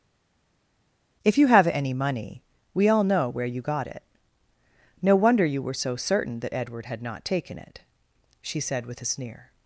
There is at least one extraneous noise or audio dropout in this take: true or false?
false